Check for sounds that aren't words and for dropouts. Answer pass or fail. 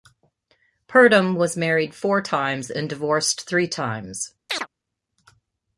fail